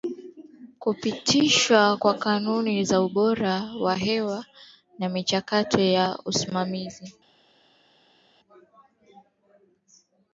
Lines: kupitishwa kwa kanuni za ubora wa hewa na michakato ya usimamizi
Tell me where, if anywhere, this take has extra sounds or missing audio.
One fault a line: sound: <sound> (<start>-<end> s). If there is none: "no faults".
no faults